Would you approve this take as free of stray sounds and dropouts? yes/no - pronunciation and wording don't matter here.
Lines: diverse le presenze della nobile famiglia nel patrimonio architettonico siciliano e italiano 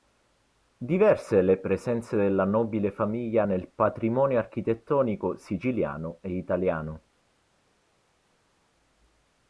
yes